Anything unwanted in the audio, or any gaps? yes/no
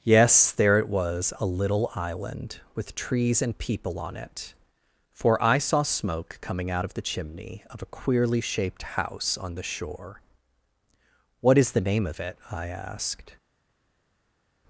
no